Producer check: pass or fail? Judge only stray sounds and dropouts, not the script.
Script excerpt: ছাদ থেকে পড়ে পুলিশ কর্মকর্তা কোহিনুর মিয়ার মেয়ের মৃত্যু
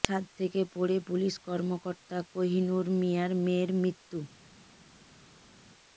pass